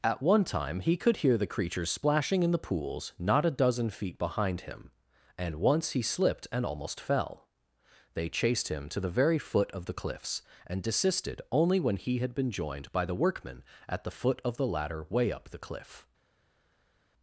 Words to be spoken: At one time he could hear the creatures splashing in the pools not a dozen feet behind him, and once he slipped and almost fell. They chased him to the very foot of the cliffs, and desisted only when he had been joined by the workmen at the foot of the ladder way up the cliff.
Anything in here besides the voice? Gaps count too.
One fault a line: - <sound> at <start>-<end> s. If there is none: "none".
none